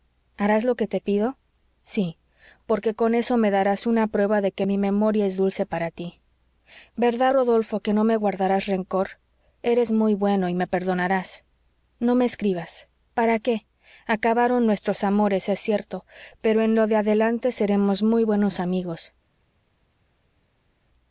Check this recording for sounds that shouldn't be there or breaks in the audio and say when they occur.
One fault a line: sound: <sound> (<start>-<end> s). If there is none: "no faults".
no faults